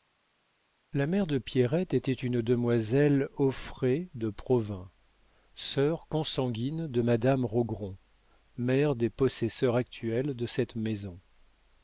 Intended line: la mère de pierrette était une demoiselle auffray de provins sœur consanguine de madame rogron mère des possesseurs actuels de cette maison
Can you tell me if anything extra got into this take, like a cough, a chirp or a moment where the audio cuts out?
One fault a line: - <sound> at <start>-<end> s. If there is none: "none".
none